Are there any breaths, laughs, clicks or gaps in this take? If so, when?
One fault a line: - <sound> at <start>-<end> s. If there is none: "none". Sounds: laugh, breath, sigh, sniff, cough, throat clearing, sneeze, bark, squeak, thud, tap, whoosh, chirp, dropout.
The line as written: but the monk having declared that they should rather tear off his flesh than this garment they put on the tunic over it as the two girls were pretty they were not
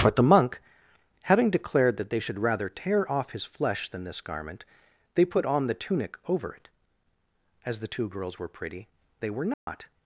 - dropout at 9.5-9.7 s